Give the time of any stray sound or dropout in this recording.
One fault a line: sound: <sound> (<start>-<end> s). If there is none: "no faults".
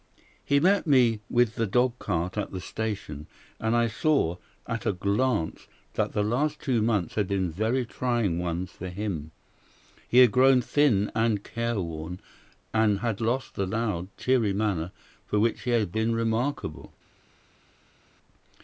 no faults